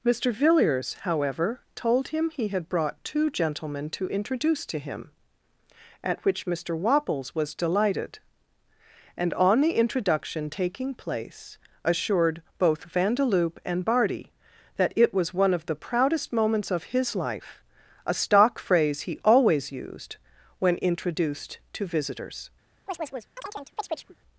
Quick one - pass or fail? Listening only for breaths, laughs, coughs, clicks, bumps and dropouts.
fail